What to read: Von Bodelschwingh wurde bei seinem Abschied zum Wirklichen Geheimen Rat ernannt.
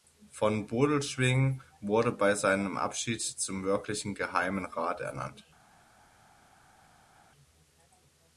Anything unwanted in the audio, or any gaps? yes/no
no